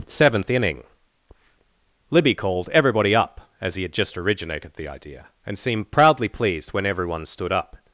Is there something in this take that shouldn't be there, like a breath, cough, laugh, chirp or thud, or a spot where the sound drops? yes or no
no